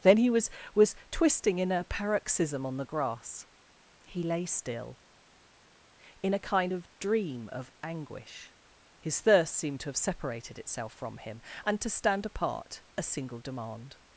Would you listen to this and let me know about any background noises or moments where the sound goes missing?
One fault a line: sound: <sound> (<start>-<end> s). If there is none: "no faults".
no faults